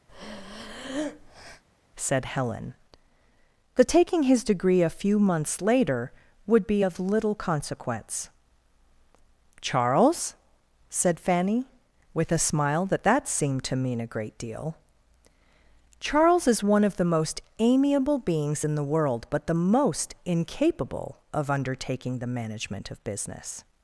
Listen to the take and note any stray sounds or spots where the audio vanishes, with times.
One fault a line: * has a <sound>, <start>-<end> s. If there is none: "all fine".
* has a breath, 0.1-1.6 s